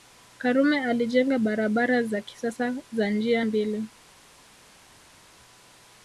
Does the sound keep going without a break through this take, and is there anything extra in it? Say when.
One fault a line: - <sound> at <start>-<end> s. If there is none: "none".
none